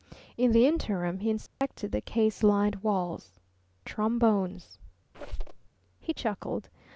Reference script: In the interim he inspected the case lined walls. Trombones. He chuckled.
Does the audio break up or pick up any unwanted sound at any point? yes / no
yes